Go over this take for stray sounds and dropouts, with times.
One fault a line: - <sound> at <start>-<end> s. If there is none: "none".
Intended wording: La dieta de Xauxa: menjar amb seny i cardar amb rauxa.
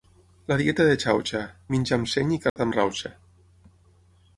- dropout at 2.5-2.6 s